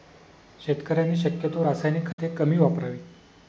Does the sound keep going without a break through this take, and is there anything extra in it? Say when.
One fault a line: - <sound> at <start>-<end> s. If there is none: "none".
- dropout at 2.1-2.2 s